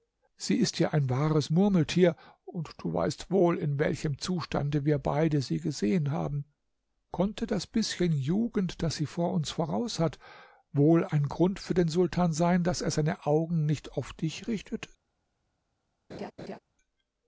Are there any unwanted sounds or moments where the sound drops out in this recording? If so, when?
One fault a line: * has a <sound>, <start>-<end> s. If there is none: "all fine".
* has a laugh, 16.1-16.6 s